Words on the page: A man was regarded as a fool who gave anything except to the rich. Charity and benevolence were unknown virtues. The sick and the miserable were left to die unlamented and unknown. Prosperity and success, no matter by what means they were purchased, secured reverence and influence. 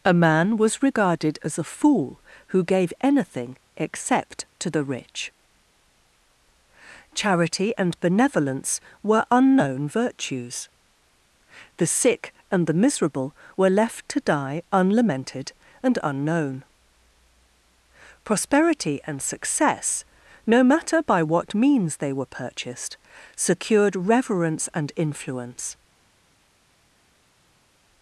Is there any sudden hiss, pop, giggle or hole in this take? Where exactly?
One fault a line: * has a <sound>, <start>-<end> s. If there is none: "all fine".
all fine